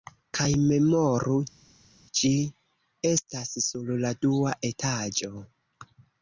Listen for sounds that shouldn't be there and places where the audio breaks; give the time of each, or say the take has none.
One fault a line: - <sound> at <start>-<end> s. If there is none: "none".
none